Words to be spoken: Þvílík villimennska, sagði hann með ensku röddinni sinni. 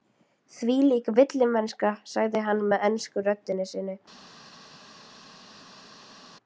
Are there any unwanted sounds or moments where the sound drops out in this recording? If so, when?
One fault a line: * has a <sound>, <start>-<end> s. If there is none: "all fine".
all fine